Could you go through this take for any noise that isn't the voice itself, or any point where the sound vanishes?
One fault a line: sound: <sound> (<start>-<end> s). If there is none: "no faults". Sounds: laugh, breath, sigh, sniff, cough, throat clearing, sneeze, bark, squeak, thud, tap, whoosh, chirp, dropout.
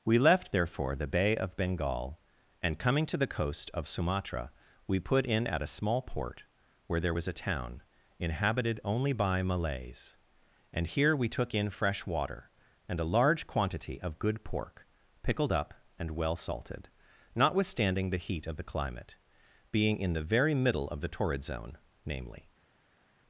no faults